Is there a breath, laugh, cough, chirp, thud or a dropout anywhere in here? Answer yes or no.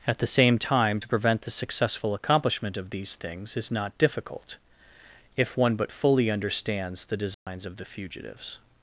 yes